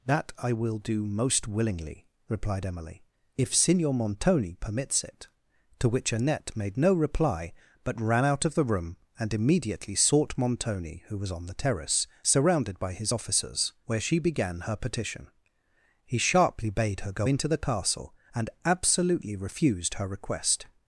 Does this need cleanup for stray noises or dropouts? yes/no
no